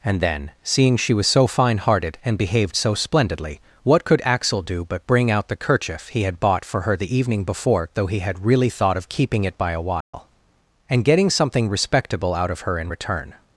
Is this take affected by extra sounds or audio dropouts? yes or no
yes